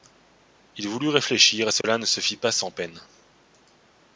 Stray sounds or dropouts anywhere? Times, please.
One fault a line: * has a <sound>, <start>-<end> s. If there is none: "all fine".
* has a dropout, 1.8-1.8 s